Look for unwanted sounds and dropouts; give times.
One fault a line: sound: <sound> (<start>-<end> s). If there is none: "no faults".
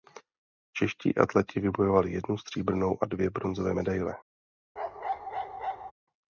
sound: bark (4.8-5.9 s)